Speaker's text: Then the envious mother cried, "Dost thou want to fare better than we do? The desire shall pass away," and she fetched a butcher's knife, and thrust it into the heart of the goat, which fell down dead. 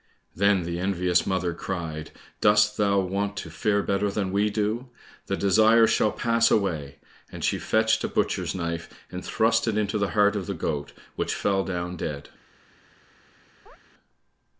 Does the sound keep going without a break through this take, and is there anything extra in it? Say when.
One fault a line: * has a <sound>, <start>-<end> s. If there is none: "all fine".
* has a chirp, 13.7-13.8 s